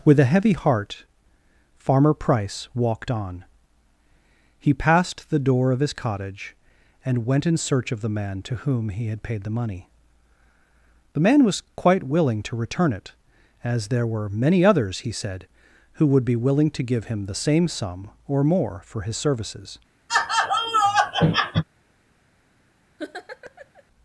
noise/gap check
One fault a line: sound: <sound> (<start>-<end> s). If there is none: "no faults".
sound: laugh (20.1-21.6 s)
sound: laugh (23.0-23.8 s)